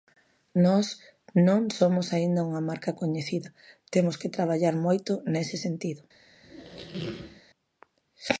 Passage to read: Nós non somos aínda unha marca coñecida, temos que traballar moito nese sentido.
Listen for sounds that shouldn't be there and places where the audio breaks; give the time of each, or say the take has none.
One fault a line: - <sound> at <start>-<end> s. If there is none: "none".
- squeak at 6.4-7.4 s